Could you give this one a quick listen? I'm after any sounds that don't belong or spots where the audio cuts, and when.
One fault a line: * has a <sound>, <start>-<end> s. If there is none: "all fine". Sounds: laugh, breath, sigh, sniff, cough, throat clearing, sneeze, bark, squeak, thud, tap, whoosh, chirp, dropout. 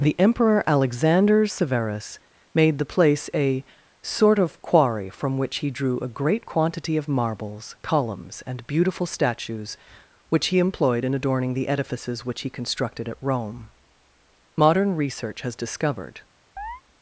* has a chirp, 16.6-16.8 s